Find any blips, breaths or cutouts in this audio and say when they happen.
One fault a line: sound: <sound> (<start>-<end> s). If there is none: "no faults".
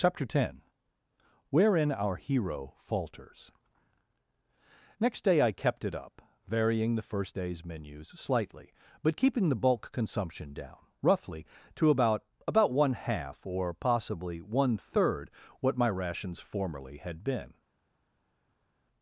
no faults